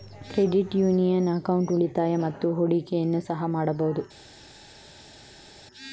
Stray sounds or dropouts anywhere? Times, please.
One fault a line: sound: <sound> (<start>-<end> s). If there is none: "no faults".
no faults